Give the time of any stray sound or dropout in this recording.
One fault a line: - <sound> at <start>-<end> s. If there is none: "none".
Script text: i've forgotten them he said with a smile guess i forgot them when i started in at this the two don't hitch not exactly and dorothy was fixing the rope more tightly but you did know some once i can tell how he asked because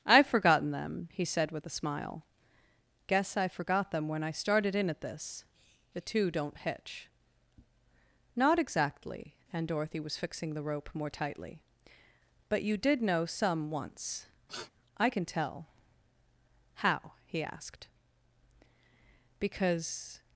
- sniff at 14.5-14.7 s